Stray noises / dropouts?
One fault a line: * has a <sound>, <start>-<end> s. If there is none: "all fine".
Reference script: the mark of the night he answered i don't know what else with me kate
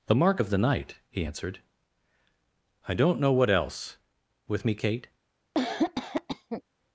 * has a cough, 5.5-6.6 s